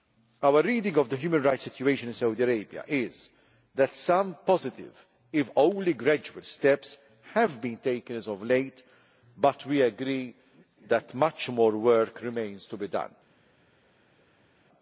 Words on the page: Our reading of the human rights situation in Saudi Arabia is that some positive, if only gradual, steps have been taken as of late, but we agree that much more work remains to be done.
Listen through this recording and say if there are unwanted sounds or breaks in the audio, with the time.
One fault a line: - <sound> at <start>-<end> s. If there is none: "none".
none